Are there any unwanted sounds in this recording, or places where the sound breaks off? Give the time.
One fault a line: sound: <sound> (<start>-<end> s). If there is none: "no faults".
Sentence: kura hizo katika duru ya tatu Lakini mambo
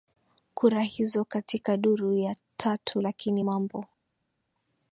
no faults